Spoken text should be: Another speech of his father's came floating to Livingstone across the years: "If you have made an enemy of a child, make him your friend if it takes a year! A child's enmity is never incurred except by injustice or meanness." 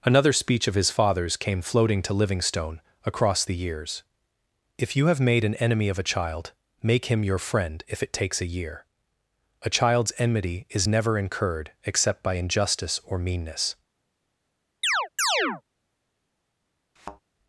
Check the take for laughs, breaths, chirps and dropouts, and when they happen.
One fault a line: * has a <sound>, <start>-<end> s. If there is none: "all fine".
* has a chirp, 14.8-15.6 s
* has a thud, 17.0-17.2 s